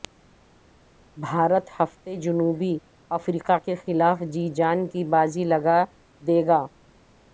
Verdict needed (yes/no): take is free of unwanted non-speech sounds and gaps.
yes